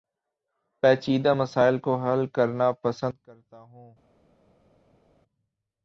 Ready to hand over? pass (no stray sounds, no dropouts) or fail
pass